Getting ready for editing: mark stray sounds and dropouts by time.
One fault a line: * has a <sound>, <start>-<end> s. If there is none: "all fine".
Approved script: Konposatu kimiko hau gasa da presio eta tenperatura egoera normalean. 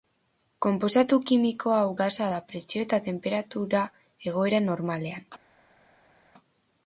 all fine